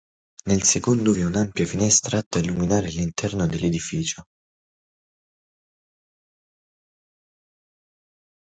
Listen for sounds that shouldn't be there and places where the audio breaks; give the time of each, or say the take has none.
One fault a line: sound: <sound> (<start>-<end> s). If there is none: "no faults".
no faults